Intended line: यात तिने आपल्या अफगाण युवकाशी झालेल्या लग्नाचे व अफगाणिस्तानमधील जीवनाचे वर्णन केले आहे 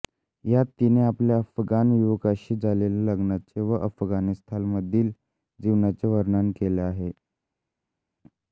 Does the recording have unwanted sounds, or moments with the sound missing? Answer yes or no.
no